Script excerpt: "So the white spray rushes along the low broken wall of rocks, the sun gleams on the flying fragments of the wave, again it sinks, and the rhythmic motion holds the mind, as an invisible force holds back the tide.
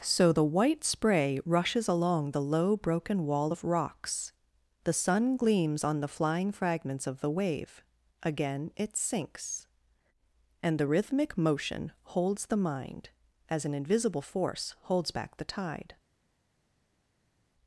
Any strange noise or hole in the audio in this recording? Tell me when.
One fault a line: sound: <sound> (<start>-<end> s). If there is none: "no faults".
no faults